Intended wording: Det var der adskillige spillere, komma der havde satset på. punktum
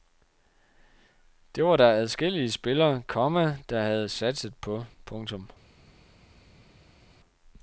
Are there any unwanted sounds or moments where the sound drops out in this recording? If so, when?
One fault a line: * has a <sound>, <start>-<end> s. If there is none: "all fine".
all fine